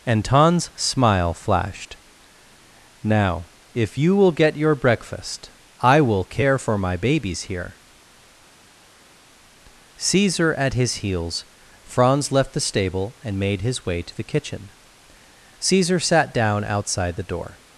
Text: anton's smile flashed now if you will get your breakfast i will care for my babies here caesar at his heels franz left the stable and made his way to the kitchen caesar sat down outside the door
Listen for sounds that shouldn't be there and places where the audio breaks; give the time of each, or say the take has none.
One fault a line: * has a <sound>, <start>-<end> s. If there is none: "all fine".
all fine